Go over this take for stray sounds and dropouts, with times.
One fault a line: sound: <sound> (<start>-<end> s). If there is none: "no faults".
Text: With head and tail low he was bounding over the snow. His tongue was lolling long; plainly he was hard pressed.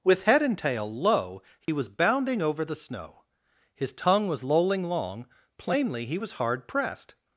sound: dropout (1.6-1.7 s)